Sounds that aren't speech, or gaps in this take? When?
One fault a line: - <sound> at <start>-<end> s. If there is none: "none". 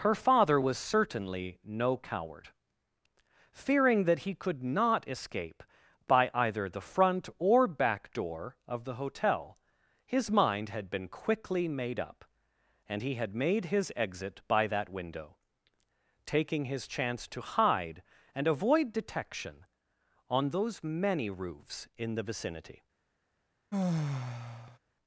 - sigh at 23.7-24.8 s